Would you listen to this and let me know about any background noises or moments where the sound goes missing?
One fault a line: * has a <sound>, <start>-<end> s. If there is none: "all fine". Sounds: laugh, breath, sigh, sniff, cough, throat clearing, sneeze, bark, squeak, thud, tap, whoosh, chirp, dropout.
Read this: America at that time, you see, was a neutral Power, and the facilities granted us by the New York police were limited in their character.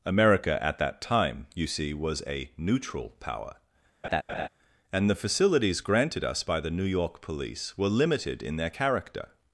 * has a laugh, 4.0-4.5 s